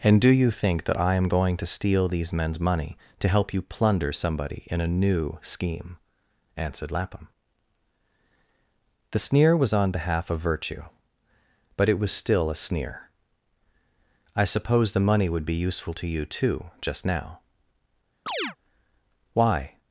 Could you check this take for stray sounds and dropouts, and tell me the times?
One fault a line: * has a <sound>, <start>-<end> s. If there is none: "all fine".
* has a chirp, 18.3-18.6 s